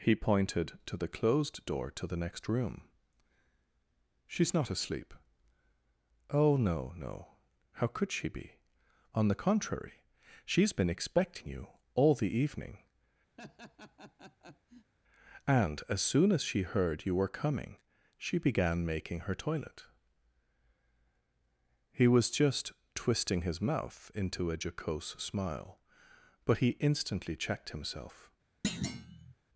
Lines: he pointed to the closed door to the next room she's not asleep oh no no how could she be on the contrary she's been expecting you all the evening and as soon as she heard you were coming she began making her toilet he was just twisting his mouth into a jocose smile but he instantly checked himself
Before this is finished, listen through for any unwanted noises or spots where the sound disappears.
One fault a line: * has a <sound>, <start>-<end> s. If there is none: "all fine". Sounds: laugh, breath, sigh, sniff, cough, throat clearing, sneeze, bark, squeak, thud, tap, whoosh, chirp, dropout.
* has a laugh, 13.4-14.9 s
* has a thud, 28.6-29.3 s